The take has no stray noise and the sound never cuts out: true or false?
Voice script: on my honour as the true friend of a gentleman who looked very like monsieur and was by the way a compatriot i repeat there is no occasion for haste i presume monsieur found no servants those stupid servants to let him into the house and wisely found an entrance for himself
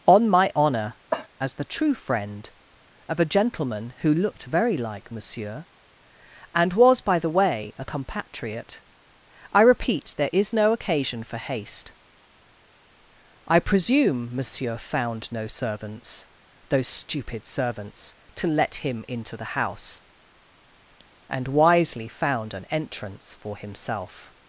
false